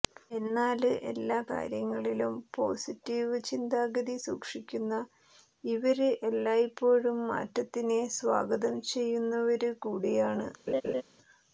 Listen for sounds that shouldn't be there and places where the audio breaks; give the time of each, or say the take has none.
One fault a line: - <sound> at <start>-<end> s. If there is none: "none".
- laugh at 10.7-11.0 s